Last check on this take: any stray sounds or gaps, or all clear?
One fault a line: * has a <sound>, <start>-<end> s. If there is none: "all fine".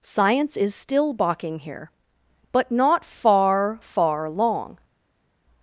all fine